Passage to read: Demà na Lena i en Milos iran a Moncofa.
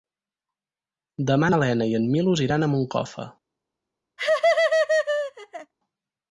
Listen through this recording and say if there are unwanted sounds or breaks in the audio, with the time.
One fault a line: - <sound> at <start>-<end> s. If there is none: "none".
- laugh at 4.2-5.7 s